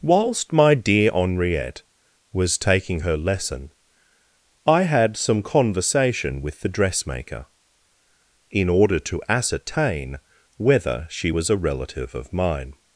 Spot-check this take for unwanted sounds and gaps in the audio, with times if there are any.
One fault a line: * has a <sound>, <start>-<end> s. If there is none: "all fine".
all fine